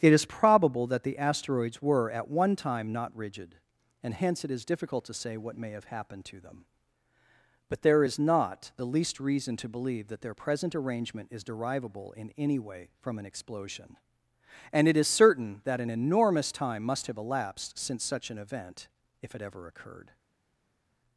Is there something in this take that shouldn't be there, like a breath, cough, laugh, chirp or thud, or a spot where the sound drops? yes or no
no